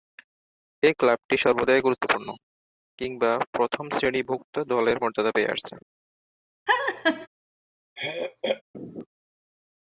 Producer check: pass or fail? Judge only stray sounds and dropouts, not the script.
fail